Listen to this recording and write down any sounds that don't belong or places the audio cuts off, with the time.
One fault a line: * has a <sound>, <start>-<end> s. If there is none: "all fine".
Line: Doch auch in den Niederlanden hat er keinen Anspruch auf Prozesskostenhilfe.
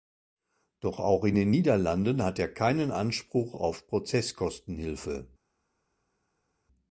all fine